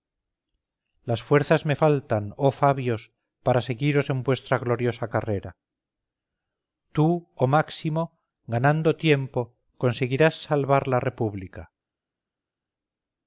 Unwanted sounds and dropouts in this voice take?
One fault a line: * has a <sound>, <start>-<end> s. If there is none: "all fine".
all fine